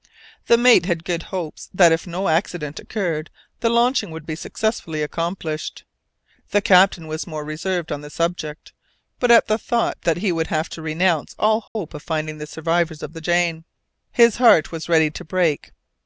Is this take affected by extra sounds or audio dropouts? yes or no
yes